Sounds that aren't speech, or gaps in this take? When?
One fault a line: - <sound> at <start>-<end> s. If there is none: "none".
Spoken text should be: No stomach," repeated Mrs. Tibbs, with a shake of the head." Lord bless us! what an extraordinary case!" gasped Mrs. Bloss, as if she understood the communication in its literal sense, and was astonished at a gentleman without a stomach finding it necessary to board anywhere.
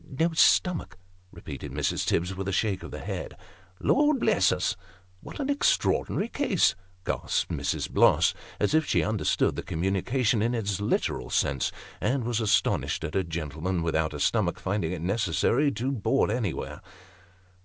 none